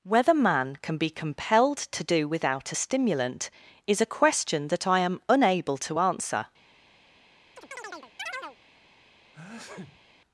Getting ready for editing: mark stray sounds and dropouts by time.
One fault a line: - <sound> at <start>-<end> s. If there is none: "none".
- chirp at 7.6-8.6 s
- sneeze at 9.3-10.0 s